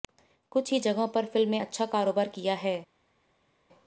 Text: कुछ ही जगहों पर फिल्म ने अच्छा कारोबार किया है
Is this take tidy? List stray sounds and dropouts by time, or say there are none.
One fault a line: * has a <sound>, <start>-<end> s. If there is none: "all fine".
all fine